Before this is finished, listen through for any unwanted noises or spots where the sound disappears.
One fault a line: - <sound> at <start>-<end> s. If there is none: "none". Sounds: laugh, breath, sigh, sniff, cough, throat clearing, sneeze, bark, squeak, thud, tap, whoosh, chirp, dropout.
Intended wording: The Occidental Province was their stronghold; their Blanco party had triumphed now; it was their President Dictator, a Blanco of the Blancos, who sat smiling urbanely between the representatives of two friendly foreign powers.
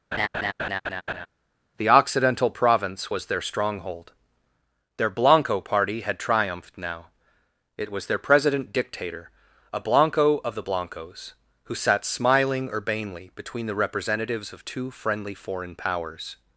- laugh at 0.1-1.3 s